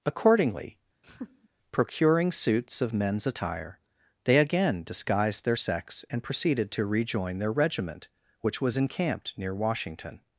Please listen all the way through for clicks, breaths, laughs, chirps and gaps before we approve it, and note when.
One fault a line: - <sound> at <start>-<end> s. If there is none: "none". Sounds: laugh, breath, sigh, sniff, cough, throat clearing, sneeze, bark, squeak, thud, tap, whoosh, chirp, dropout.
- laugh at 1.0-1.5 s